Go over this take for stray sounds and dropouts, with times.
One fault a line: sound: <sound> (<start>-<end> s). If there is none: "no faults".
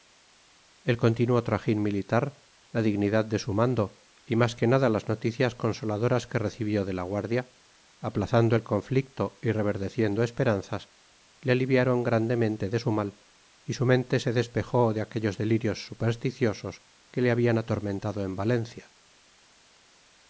no faults